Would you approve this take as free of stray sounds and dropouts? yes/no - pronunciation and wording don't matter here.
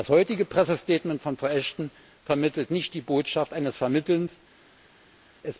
yes